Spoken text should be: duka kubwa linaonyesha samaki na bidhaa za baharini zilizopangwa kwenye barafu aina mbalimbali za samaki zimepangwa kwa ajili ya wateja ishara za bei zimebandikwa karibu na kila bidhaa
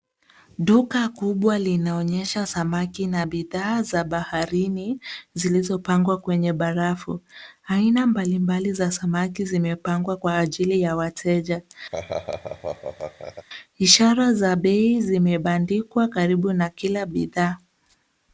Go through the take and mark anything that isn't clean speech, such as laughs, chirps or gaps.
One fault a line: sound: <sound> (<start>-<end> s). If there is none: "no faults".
sound: laugh (11.9-13.5 s)